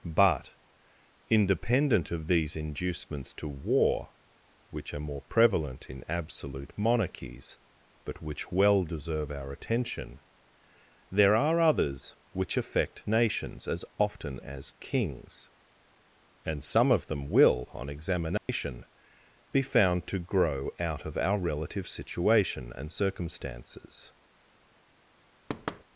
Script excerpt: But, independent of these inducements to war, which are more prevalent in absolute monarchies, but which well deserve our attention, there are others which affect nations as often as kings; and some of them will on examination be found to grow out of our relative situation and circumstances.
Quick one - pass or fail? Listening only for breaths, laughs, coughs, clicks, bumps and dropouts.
fail